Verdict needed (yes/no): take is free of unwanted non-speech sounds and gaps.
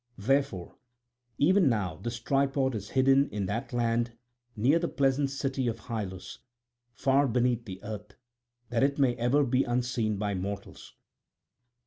yes